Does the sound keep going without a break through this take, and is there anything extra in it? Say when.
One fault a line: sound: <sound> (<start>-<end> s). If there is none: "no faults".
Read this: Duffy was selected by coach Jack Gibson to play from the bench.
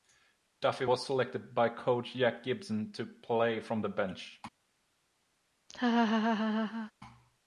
sound: laugh (5.7-6.9 s)